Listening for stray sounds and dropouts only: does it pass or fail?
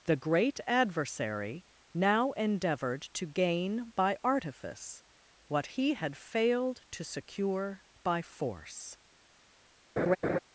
fail